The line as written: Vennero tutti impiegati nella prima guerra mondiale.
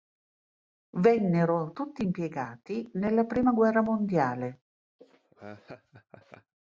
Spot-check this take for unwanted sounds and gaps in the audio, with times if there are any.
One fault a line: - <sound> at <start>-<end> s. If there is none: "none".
- laugh at 5.0-6.5 s